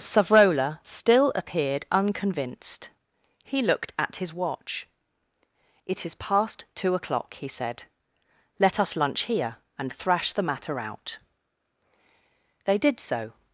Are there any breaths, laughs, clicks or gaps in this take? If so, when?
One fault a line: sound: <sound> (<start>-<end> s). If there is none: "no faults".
no faults